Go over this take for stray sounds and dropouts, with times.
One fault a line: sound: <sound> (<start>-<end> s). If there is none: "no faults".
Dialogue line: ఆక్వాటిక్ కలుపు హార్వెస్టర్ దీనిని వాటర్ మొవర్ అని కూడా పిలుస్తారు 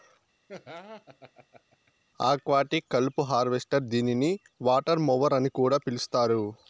sound: laugh (0.5-1.9 s)